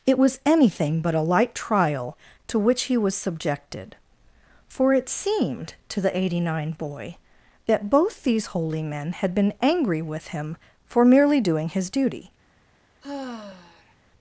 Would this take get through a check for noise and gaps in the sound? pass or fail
fail